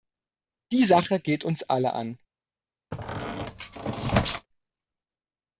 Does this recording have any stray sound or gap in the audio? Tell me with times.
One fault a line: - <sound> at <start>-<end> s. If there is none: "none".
- squeak at 2.9-4.5 s